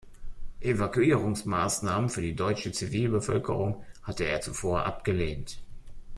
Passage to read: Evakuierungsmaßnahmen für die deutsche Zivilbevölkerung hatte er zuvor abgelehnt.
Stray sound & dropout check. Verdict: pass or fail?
pass